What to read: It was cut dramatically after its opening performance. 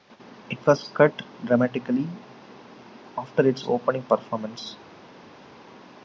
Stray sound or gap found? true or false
false